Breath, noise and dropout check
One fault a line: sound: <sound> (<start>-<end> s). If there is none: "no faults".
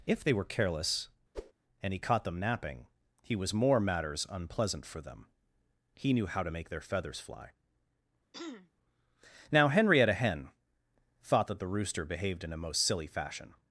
sound: whoosh (1.3-1.5 s)
sound: throat clearing (8.3-8.7 s)